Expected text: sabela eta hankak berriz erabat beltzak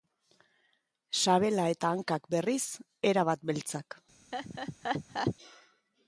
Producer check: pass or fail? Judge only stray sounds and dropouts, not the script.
fail